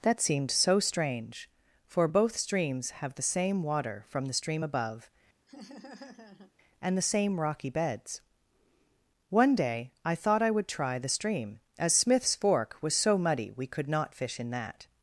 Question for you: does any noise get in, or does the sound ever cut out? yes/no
yes